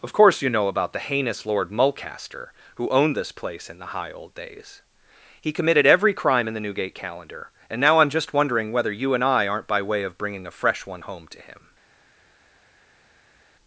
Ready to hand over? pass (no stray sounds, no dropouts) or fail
pass